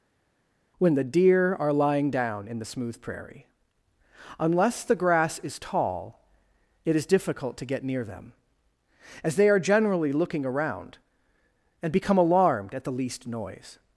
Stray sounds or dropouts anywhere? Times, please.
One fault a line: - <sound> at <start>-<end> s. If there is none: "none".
none